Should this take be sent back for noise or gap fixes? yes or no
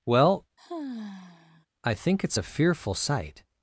yes